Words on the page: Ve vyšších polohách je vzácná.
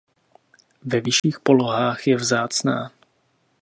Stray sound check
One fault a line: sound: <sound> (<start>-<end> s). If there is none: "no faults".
sound: dropout (1.2-1.2 s)